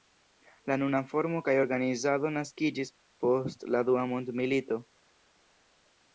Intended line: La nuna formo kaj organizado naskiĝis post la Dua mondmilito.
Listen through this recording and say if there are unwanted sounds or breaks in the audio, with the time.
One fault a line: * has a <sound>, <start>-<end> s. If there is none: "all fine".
all fine